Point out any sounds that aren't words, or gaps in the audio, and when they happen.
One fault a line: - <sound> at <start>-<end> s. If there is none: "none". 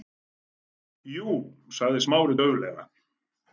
none